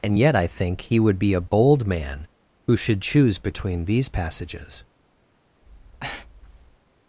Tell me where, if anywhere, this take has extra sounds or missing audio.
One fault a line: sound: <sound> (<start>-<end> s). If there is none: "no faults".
sound: breath (5.6-6.8 s)